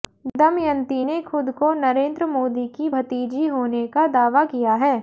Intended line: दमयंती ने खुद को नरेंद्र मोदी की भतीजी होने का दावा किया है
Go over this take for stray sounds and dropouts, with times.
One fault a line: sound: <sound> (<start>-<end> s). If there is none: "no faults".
no faults